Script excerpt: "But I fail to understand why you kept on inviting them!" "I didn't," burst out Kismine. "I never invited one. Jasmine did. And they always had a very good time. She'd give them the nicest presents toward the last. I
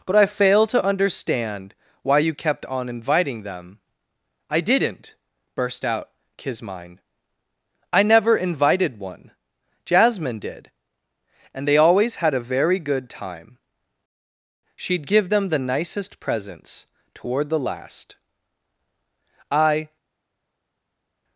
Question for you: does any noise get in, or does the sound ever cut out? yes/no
no